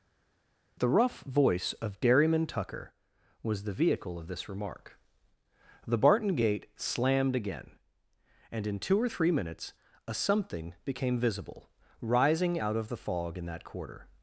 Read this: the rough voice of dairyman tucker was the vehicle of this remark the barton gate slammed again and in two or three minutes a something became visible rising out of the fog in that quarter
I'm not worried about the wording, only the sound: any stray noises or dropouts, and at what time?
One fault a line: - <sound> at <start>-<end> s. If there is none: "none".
none